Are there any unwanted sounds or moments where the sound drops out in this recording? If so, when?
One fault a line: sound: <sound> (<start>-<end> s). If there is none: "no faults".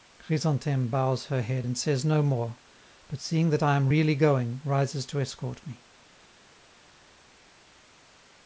no faults